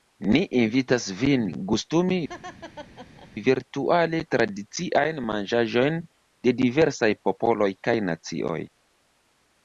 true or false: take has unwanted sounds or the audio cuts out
true